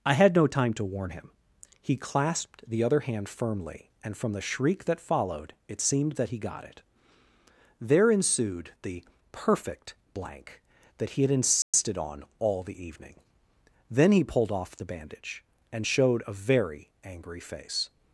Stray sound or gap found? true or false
true